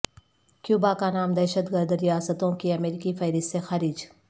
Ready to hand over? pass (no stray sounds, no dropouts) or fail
pass